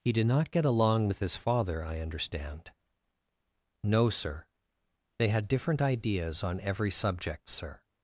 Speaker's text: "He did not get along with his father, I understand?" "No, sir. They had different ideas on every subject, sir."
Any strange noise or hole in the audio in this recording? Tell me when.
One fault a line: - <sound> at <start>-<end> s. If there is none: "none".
none